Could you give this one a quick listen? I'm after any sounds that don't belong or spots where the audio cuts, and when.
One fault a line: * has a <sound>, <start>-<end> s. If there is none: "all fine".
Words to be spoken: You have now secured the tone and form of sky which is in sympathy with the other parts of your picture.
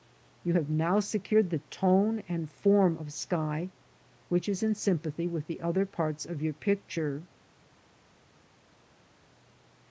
all fine